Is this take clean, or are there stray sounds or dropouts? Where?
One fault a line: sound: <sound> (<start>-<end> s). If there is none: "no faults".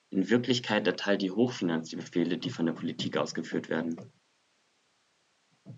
no faults